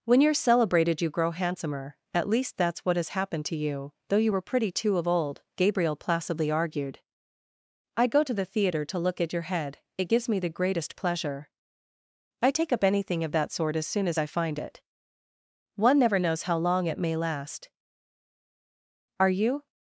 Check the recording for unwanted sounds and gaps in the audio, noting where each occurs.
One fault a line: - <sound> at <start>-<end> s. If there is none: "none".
none